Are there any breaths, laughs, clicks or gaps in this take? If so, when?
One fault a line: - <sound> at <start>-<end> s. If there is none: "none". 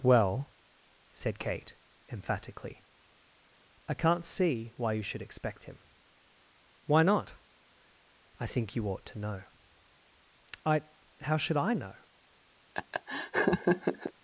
- laugh at 12.7-14.1 s